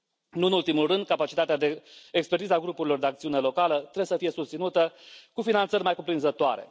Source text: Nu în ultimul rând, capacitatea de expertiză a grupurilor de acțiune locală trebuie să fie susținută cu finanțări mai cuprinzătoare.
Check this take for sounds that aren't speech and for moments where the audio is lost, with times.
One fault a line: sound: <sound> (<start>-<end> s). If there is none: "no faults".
no faults